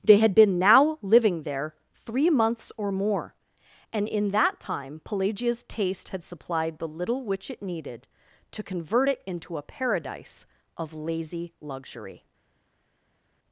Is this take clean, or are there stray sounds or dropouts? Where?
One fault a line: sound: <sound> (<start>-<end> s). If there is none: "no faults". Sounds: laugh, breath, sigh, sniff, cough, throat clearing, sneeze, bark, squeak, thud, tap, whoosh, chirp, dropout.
no faults